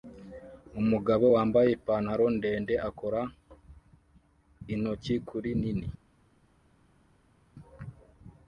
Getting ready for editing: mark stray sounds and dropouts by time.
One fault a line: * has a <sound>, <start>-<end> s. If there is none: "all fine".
all fine